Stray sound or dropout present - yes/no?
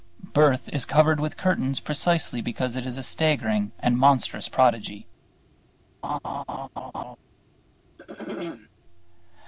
yes